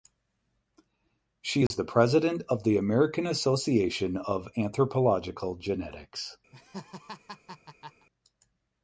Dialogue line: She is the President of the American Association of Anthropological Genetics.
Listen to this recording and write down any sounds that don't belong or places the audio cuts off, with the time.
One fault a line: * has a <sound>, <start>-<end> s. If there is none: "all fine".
* has a dropout, 1.7-1.7 s
* has a laugh, 6.5-8.1 s